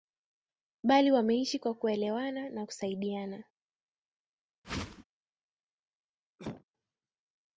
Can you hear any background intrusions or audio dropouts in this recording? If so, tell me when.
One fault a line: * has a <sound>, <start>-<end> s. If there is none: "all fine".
* has a whoosh, 4.6-5.0 s
* has a cough, 6.4-6.6 s